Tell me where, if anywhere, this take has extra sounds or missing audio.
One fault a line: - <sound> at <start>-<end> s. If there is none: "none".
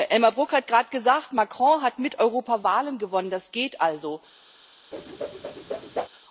- whoosh at 4.9-6.1 s